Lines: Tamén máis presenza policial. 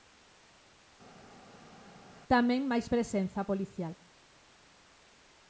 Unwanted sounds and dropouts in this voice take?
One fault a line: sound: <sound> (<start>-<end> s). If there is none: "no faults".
no faults